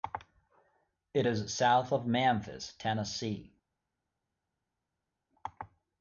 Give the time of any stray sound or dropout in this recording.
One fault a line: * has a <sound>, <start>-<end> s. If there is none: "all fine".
all fine